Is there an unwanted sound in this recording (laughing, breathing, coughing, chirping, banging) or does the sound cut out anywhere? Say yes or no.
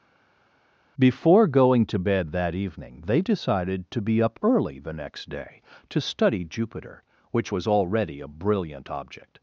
no